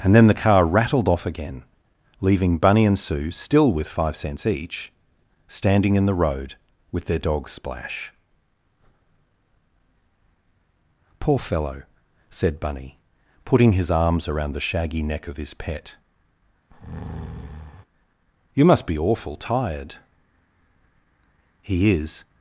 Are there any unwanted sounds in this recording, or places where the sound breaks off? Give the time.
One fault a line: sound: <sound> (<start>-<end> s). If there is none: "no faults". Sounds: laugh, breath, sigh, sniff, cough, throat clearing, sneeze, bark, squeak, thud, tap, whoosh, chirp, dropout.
sound: breath (16.7-17.9 s)